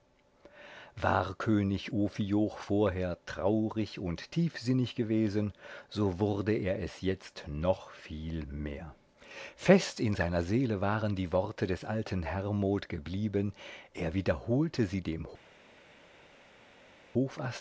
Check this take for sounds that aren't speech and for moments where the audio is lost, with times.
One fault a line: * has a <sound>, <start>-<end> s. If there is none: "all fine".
all fine